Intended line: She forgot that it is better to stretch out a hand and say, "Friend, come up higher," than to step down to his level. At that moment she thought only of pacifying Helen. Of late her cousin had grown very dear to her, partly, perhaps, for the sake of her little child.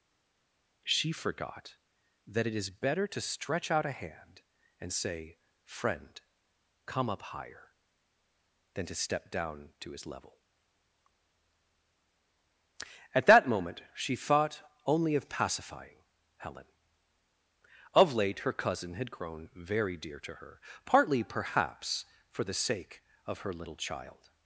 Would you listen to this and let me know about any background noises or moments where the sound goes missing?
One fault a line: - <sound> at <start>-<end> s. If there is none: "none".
none